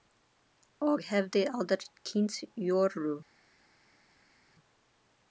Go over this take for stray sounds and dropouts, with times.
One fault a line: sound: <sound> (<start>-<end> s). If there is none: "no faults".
no faults